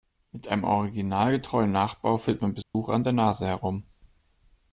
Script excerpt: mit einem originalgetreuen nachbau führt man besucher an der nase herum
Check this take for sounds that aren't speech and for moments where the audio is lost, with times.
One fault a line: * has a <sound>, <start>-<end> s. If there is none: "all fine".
* has a dropout, 2.6-2.7 s